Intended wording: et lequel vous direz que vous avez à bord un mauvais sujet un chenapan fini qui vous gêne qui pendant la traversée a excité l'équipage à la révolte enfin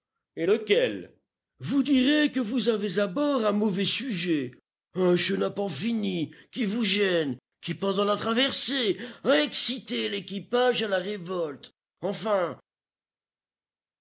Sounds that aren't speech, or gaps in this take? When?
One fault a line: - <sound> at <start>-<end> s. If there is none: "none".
none